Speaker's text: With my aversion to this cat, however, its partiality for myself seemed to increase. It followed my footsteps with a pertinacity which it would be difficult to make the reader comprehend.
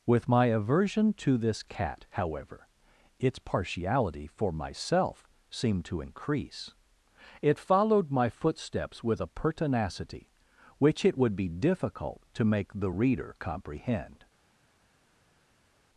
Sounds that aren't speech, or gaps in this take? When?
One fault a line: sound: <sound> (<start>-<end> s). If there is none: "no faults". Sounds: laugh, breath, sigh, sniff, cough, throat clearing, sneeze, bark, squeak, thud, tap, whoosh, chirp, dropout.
no faults